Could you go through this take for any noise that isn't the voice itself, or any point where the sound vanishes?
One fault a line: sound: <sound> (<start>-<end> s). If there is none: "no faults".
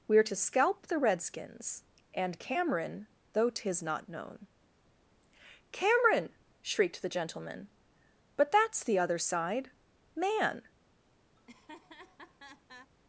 sound: laugh (11.4-12.9 s)